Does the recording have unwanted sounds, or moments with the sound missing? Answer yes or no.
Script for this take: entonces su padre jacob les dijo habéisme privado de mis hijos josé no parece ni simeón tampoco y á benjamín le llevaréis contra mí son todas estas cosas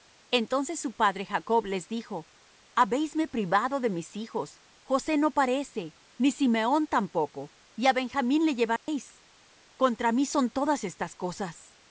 yes